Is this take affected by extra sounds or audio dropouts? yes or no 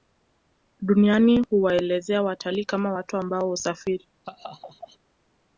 yes